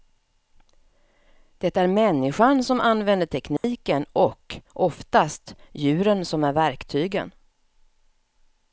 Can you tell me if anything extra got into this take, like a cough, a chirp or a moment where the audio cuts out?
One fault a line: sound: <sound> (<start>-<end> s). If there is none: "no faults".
sound: dropout (3.6-3.6 s)